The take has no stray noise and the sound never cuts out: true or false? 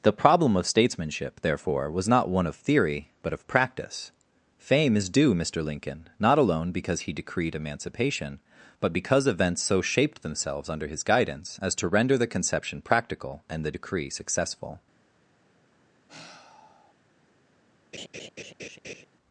false